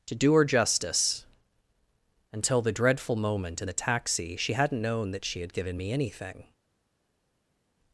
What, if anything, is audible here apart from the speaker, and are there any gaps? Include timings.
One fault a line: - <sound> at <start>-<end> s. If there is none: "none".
none